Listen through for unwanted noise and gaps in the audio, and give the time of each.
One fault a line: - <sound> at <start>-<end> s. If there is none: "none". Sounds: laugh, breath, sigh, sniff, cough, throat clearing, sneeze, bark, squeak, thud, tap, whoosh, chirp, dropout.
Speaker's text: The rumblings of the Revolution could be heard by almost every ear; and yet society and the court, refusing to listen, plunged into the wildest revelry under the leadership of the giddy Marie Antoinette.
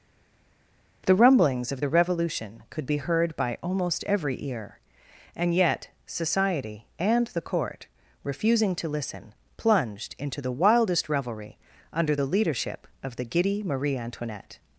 none